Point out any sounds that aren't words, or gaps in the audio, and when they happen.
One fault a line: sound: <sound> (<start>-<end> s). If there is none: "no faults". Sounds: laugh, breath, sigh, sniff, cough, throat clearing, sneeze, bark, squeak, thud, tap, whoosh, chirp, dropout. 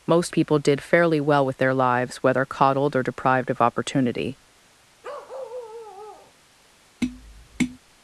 sound: bark (5.0-6.3 s)
sound: tap (7.0-7.8 s)